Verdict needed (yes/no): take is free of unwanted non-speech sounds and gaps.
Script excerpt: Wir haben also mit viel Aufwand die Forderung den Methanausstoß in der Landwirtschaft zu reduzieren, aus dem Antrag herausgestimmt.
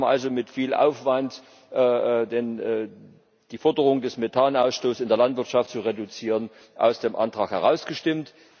yes